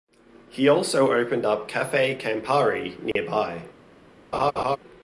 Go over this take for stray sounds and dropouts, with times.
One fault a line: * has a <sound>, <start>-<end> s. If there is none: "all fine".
* has a dropout, 3.1-3.2 s
* has a laugh, 4.3-4.8 s